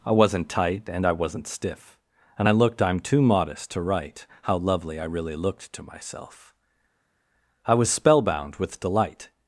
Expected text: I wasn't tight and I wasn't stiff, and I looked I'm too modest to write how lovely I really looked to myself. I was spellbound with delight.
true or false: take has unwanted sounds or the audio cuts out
false